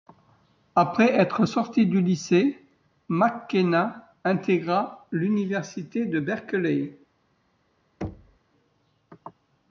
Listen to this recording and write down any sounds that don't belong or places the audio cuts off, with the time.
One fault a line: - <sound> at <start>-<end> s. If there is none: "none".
- thud at 8.0-8.4 s